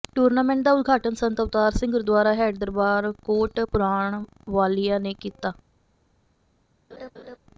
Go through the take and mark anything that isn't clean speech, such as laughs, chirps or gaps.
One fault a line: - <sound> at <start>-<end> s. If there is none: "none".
- laugh at 6.9-7.4 s